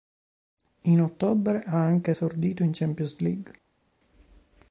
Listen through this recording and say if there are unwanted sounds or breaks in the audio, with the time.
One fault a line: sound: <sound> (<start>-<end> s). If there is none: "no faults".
no faults